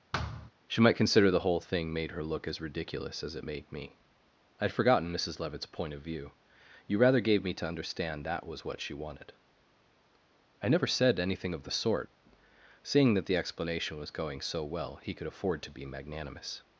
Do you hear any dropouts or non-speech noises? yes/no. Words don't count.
yes